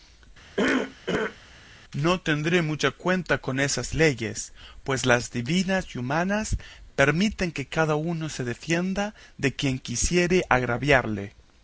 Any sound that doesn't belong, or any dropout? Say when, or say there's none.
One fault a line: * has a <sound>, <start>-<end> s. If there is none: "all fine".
* has a cough, 0.6-1.4 s